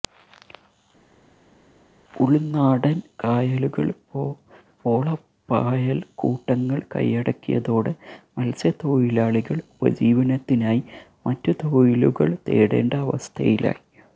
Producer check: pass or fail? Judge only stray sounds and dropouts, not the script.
pass